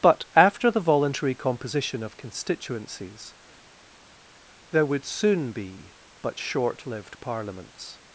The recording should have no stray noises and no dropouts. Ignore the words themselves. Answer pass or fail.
pass